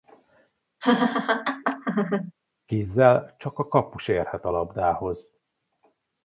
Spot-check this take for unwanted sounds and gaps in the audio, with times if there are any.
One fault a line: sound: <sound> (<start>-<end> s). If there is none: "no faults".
sound: laugh (0.8-2.3 s)